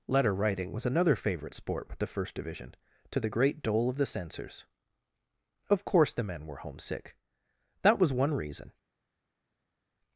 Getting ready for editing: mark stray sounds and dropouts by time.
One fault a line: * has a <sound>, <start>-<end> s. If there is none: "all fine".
all fine